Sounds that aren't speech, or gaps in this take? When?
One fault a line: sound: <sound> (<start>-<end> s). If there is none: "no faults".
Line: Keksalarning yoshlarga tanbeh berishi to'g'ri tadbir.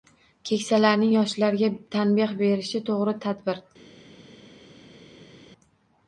no faults